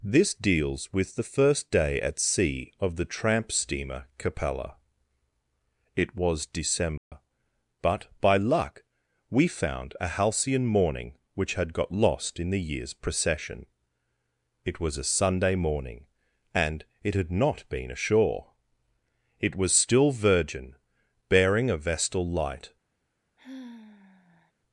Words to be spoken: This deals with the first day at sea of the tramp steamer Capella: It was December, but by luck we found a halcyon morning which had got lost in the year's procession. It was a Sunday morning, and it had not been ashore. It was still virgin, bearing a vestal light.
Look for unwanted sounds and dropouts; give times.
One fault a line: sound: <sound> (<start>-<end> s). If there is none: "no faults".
sound: dropout (7.0-7.1 s)
sound: sigh (23.4-24.5 s)